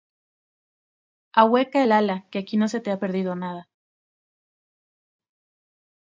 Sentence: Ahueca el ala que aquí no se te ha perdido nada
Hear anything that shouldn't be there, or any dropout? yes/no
no